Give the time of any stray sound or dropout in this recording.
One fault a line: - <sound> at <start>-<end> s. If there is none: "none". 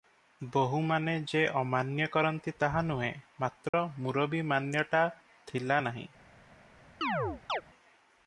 - dropout at 3.7-3.7 s
- chirp at 7.0-7.6 s